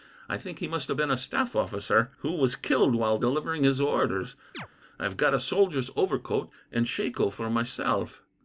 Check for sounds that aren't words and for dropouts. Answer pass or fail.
fail